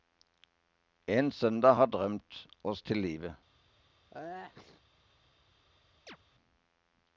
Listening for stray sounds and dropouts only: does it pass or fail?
fail